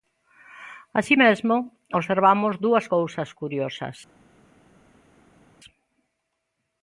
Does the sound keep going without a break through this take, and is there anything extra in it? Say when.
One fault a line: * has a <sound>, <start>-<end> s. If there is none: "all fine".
all fine